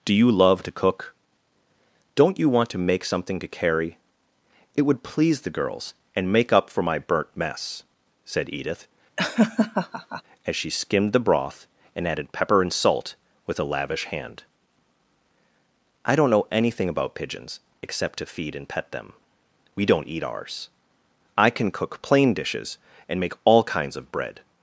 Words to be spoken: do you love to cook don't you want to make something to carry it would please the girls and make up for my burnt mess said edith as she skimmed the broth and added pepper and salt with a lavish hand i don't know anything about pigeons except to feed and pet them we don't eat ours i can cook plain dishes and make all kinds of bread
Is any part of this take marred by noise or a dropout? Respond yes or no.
yes